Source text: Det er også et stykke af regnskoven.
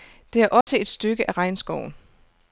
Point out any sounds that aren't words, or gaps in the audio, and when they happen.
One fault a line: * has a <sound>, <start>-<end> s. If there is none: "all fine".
* has a dropout, 0.6-0.7 s